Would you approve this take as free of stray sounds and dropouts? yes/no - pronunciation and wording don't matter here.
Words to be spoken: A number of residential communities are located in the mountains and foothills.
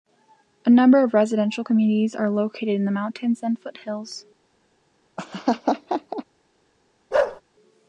no